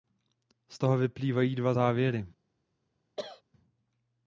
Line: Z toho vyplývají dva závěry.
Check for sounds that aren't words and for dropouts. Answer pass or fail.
fail